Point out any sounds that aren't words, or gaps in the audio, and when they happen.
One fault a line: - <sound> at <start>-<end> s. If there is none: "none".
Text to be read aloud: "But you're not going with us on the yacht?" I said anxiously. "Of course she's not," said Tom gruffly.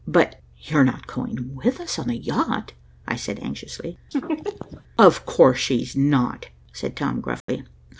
- laugh at 4.1-4.8 s
- dropout at 7.4-7.5 s